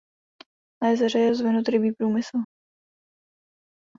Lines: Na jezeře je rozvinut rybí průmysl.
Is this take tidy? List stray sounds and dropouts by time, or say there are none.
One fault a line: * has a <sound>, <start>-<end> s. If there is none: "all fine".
all fine